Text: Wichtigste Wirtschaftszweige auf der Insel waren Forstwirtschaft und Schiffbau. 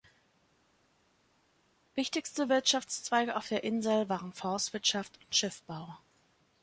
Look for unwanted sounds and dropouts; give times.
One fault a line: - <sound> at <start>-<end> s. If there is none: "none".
none